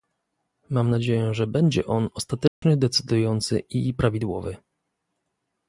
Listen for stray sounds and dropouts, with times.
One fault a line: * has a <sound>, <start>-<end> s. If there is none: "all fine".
* has a dropout, 2.5-2.6 s